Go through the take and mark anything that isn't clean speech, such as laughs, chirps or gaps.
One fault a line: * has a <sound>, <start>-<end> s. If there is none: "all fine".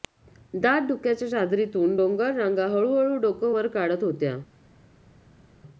all fine